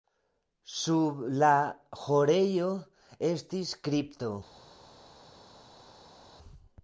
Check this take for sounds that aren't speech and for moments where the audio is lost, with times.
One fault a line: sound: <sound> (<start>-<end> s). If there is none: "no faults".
no faults